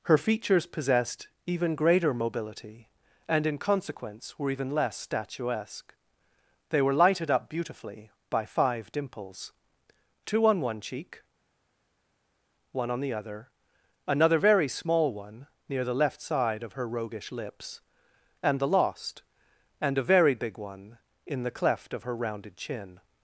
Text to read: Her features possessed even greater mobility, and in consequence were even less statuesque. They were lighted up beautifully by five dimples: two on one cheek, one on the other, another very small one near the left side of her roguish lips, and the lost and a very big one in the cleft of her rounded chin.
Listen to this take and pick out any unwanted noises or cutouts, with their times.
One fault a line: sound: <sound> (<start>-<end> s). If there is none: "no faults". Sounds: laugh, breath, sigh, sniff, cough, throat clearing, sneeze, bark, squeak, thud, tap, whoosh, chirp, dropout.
no faults